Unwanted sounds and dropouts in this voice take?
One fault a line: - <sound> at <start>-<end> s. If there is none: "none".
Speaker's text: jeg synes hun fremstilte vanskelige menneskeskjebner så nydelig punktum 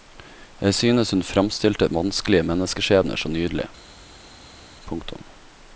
none